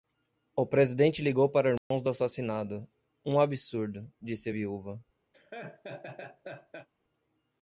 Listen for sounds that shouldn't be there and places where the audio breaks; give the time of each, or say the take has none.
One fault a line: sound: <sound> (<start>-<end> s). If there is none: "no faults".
sound: dropout (1.8-1.9 s)
sound: laugh (5.3-6.9 s)